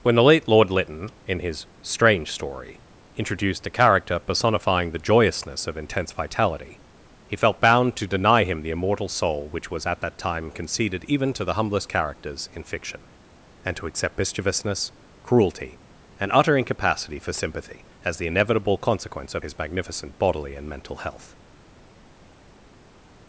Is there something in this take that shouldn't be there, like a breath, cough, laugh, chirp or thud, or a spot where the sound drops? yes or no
no